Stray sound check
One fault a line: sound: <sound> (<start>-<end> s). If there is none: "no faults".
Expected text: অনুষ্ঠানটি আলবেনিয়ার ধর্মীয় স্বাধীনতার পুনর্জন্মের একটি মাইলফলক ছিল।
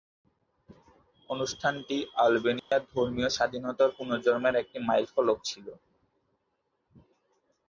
sound: dropout (2.6-2.7 s)